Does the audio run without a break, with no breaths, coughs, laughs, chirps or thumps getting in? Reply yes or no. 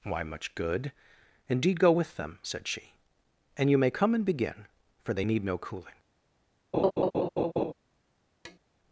no